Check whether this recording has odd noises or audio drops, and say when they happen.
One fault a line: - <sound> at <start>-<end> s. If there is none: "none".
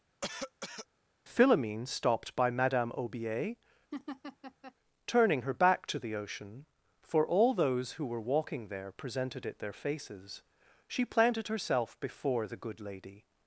- cough at 0.2-0.9 s
- laugh at 3.9-4.7 s